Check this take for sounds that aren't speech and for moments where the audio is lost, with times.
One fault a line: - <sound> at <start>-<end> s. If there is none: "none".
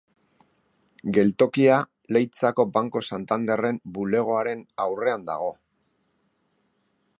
none